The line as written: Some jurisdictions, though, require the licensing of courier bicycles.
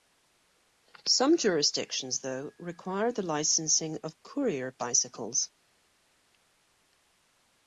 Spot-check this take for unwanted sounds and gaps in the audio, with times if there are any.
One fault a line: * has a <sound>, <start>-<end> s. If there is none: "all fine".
all fine